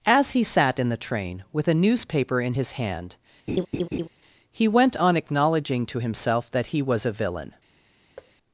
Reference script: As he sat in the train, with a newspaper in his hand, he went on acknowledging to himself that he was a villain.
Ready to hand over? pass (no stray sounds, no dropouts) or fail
fail